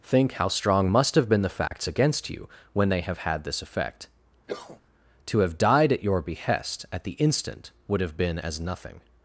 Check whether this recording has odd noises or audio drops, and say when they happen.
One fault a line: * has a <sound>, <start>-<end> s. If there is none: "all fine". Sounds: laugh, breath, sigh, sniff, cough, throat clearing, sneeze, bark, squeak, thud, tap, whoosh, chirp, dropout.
* has a dropout, 1.7-1.7 s
* has a cough, 4.5-4.8 s